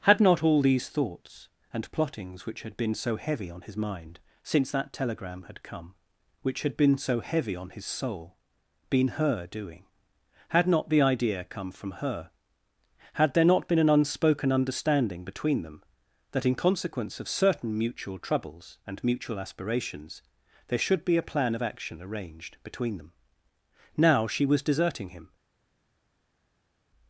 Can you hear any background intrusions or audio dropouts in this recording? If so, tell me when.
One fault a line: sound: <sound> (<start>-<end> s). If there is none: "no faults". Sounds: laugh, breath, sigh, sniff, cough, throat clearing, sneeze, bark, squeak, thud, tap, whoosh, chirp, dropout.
no faults